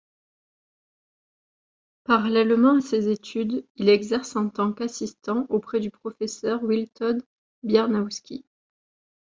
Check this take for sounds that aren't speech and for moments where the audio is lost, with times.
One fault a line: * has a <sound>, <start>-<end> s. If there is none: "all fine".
all fine